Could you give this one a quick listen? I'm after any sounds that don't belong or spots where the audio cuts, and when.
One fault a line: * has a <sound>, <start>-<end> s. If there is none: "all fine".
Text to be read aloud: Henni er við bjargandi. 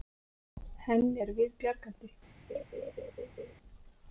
* has a laugh, 2.5-3.5 s